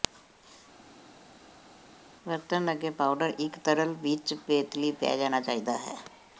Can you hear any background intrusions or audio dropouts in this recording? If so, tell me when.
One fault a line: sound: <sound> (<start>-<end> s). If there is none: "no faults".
no faults